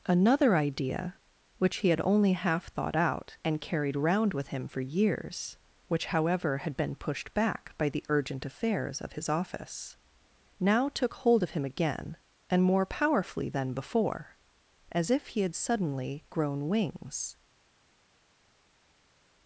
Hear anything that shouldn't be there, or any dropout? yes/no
no